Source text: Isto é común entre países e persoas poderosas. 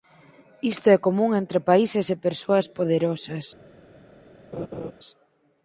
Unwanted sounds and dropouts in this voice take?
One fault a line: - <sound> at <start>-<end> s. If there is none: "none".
- laugh at 4.5-4.9 s